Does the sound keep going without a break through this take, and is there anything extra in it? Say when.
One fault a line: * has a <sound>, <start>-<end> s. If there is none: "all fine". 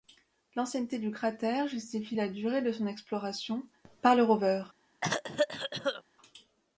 * has a cough, 5.0-6.0 s